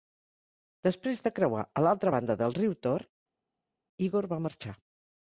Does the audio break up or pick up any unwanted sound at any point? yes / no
no